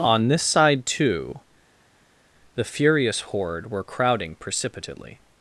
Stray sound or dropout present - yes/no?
no